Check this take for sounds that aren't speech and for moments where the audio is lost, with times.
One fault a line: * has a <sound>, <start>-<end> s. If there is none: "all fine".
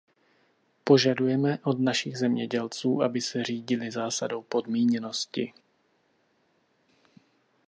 all fine